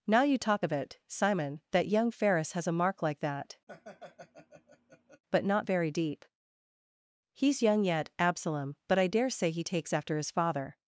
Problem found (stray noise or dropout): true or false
true